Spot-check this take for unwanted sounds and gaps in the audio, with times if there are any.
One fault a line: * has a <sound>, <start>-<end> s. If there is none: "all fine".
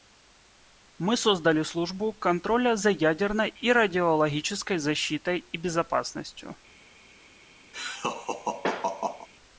* has a laugh, 7.7-9.3 s